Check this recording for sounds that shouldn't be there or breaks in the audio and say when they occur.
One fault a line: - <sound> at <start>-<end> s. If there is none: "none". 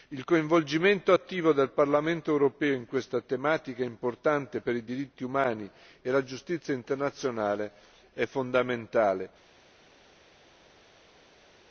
none